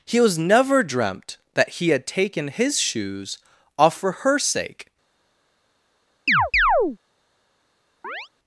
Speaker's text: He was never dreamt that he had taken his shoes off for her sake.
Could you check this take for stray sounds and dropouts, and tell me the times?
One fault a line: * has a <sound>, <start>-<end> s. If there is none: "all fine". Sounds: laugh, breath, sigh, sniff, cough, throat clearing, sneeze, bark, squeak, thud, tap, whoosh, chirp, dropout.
* has a chirp, 6.3-7.0 s
* has a chirp, 8.0-8.3 s